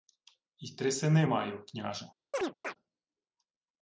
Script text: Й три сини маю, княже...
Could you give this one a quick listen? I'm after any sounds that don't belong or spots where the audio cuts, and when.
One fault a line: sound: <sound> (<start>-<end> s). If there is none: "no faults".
sound: chirp (2.3-2.7 s)